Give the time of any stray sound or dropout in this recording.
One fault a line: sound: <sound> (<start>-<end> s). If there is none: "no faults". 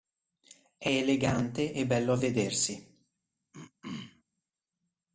sound: throat clearing (3.5-4.2 s)